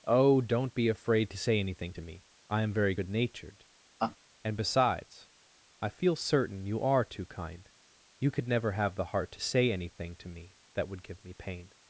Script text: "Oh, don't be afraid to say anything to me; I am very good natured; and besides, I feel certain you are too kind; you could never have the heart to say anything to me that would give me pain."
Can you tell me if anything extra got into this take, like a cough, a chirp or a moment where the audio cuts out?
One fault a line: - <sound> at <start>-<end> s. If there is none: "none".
- laugh at 4.0-4.2 s